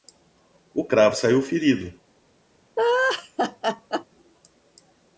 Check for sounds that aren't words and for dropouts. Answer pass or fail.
fail